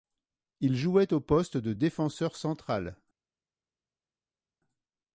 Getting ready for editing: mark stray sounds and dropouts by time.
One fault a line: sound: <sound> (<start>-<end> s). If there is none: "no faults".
no faults